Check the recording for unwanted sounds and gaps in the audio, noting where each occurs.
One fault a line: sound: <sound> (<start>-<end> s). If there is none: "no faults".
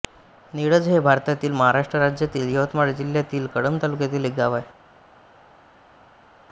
no faults